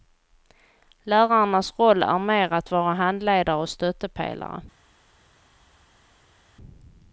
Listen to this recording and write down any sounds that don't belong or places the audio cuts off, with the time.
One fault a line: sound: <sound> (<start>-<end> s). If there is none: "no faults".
no faults